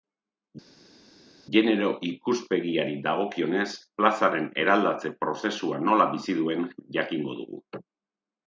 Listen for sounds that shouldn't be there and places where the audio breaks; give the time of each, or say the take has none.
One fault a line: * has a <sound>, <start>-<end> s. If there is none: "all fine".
all fine